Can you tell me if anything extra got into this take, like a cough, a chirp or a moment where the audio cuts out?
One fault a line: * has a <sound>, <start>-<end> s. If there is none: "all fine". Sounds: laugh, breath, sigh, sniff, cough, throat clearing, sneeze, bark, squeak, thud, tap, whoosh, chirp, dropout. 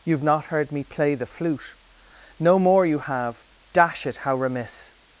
all fine